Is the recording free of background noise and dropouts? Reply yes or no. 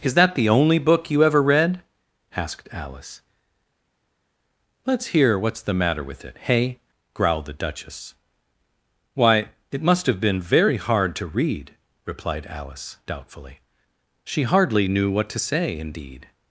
yes